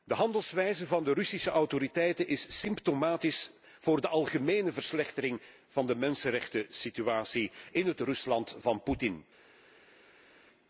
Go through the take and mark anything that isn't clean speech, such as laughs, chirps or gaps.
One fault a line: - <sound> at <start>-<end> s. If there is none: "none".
none